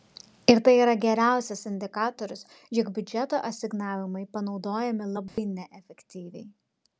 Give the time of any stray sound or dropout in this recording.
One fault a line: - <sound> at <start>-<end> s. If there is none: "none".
- dropout at 5.3-5.4 s